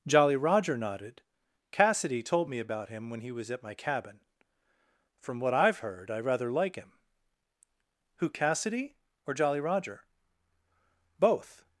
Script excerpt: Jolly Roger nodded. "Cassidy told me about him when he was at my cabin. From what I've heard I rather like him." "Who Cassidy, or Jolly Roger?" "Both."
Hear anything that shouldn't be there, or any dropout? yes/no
no